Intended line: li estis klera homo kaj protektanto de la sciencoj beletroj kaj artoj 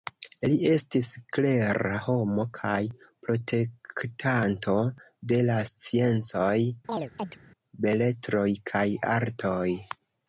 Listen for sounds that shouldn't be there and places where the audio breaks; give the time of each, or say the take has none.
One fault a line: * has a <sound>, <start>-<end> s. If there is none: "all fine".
* has a chirp, 6.9-7.4 s